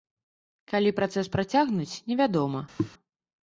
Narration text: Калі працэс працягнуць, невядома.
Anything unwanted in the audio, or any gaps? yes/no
yes